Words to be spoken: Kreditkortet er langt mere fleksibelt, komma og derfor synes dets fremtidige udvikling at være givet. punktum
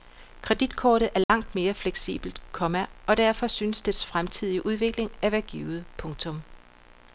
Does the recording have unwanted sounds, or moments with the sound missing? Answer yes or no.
yes